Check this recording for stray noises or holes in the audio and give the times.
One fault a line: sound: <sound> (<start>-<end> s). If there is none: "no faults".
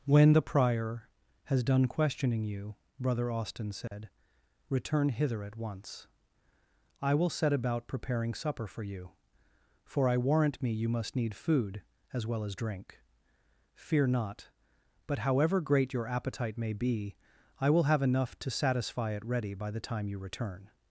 sound: dropout (3.9-3.9 s)